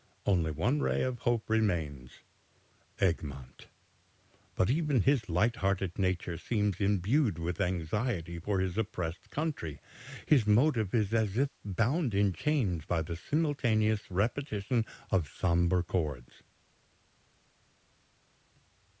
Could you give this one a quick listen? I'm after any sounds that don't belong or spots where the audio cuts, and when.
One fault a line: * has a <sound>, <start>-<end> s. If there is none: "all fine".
all fine